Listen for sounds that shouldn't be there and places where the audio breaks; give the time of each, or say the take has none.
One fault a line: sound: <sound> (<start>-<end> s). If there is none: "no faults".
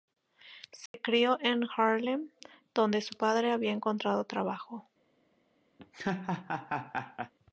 sound: dropout (0.9-0.9 s)
sound: laugh (5.8-7.3 s)